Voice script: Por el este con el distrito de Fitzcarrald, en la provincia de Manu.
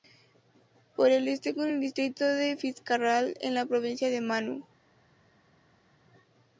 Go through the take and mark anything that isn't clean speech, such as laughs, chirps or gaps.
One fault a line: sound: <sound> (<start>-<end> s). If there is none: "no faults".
no faults